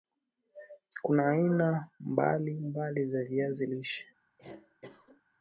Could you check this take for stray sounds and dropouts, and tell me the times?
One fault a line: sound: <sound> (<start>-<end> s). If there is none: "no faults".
sound: cough (4.4-5.2 s)